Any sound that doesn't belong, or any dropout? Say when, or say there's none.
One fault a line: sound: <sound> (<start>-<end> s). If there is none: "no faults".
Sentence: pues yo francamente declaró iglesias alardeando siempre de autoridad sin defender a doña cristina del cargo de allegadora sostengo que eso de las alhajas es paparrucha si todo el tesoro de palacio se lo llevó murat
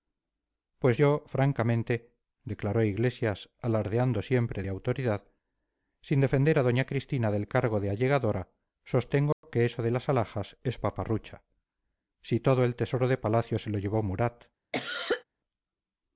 sound: dropout (9.3-9.4 s)
sound: cough (14.7-15.2 s)